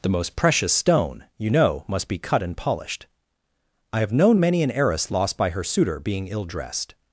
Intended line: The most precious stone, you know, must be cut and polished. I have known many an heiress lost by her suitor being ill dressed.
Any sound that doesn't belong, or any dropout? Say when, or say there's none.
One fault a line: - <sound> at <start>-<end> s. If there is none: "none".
none